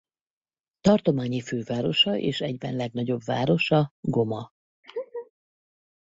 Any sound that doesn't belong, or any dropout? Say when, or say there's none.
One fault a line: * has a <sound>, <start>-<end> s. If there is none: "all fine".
* has a laugh, 4.8-5.3 s